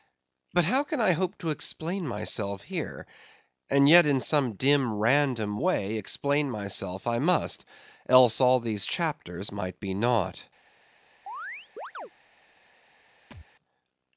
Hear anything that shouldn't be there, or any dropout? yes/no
yes